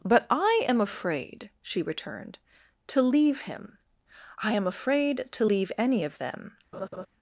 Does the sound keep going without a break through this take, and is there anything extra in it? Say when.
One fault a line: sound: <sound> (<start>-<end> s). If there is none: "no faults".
sound: laugh (6.7-7.1 s)